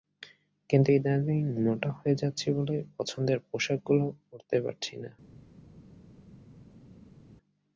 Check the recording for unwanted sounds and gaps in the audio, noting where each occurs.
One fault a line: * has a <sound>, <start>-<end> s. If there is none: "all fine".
all fine